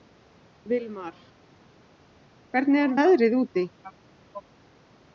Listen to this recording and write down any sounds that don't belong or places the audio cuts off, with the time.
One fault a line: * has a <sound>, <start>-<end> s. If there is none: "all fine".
all fine